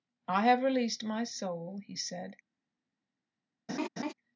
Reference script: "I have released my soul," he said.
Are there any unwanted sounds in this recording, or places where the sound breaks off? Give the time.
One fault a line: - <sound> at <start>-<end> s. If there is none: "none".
- laugh at 3.7-4.1 s